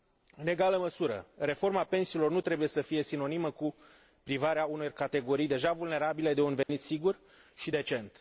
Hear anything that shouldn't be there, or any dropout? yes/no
yes